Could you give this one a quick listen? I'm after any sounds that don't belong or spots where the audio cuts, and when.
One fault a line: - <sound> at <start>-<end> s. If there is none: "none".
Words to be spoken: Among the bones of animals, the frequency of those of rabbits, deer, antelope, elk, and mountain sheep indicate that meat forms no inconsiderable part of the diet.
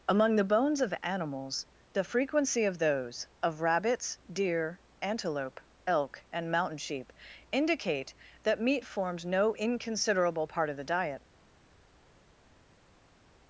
none